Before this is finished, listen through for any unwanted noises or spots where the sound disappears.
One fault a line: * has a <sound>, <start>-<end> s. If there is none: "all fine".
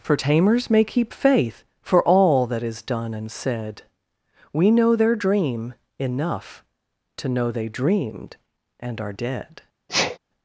* has a sneeze, 9.9-10.2 s